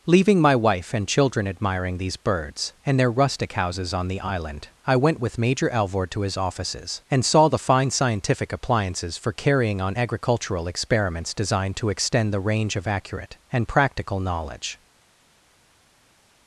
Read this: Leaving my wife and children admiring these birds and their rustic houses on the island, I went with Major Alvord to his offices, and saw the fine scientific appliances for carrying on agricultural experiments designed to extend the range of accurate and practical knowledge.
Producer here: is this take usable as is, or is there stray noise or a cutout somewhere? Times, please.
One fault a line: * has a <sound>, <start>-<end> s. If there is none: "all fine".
all fine